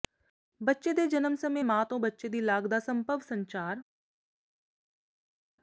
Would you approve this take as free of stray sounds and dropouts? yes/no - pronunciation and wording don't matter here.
yes